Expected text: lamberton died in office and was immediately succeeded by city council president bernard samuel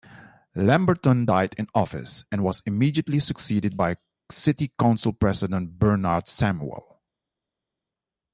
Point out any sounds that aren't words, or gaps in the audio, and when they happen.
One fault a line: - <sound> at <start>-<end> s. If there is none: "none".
none